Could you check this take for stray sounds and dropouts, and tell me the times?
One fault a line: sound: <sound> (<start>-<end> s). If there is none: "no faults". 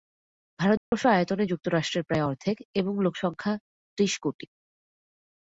sound: dropout (0.8-0.9 s)